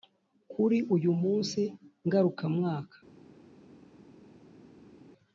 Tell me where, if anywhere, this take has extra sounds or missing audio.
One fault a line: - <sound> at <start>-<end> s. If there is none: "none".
none